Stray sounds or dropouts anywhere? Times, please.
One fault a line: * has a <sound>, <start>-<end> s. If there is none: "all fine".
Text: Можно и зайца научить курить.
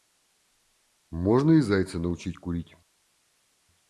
all fine